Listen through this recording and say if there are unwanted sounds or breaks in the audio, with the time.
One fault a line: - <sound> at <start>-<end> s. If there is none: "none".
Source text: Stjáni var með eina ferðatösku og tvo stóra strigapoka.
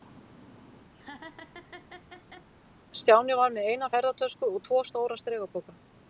- laugh at 0.9-2.5 s